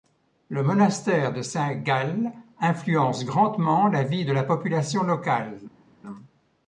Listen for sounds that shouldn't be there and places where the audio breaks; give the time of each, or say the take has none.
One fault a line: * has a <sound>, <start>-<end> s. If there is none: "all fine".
all fine